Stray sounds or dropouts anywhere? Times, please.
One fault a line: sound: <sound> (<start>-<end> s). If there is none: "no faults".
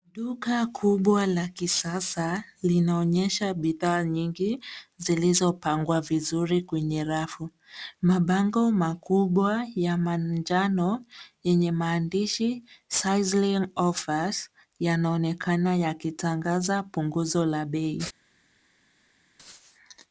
no faults